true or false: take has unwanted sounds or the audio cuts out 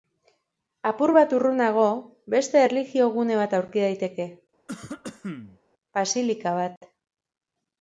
true